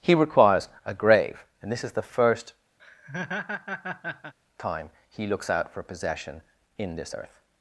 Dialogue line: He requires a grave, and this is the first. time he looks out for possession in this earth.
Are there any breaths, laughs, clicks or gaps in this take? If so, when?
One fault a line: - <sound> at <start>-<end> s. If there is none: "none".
- laugh at 2.8-4.3 s